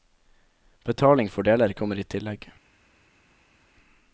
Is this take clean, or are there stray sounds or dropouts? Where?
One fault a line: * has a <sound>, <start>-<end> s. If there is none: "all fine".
all fine